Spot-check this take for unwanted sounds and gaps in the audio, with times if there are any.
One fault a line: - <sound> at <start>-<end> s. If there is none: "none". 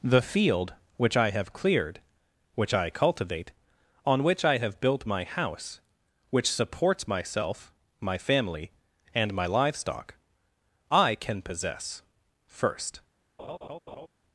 - laugh at 13.4-14.1 s